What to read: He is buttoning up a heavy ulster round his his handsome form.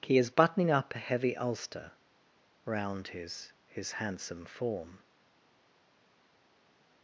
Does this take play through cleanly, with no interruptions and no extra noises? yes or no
yes